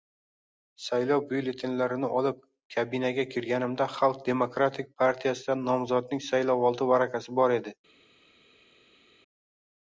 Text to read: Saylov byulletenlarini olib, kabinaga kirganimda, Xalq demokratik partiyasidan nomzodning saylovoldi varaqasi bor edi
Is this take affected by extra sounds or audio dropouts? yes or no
no